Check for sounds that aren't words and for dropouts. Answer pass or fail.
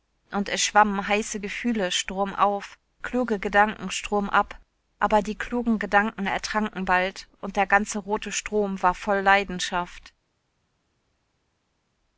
pass